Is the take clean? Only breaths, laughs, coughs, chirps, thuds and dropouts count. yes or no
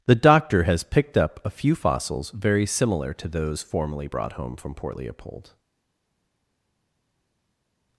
yes